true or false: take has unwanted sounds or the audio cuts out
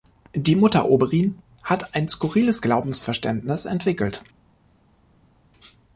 false